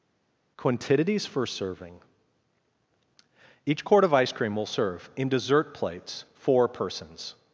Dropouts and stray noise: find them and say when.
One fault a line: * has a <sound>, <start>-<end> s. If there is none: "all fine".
all fine